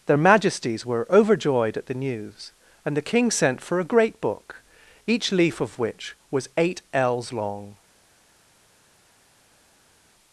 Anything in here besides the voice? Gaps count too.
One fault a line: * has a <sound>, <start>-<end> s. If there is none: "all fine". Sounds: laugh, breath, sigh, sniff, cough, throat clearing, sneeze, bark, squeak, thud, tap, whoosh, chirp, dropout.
all fine